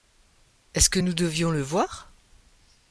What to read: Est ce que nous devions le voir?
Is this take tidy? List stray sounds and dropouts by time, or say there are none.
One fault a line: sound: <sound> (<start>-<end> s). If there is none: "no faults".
no faults